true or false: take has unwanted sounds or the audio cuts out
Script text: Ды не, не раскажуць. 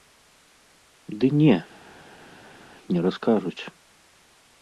false